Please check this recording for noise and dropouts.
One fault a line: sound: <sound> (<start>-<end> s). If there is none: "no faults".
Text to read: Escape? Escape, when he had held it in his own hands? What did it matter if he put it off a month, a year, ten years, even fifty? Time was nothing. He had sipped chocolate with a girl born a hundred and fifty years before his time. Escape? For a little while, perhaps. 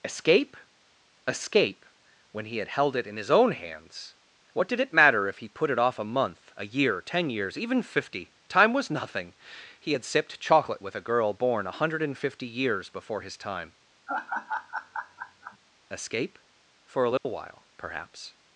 sound: laugh (14.1-15.6 s)
sound: dropout (17.2-17.3 s)